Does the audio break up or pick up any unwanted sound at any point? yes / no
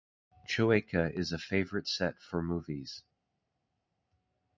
no